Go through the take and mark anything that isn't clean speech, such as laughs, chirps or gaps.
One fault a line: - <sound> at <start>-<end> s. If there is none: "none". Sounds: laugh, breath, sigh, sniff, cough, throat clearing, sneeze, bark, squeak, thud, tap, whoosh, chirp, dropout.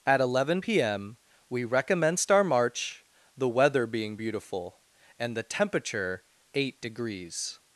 none